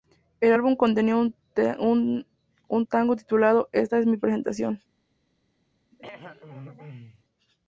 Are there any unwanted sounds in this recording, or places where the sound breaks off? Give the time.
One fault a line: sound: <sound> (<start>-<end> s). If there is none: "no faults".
sound: throat clearing (5.9-7.2 s)